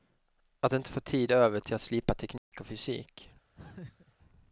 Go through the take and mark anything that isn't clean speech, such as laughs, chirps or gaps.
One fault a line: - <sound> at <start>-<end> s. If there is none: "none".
- dropout at 2.4-2.5 s
- laugh at 3.6-4.2 s